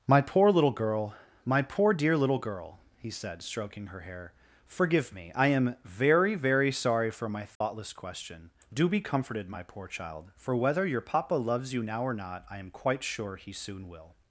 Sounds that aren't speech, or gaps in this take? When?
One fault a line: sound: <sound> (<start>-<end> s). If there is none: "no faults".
sound: dropout (7.6-7.6 s)